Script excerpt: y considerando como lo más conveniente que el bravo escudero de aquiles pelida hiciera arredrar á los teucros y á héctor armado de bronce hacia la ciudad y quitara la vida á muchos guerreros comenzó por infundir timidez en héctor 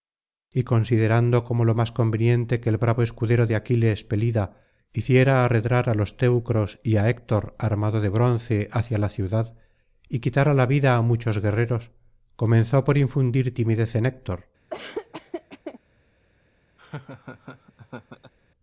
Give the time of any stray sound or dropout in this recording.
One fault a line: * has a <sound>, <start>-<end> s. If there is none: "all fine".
* has a laugh, 14.7-15.8 s
* has a laugh, 16.8-18.3 s